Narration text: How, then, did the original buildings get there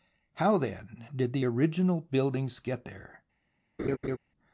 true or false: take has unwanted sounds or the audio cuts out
true